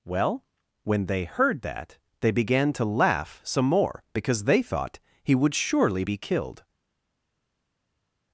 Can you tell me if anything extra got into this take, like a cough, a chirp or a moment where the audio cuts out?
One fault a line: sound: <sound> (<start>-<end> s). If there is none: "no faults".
no faults